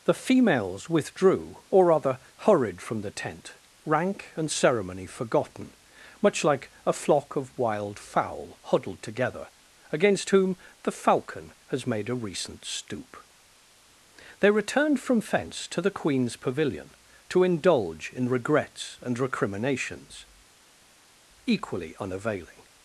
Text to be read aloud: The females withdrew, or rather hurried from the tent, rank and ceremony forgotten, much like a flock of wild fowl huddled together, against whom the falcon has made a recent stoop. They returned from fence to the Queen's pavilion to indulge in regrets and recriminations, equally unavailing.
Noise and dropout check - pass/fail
pass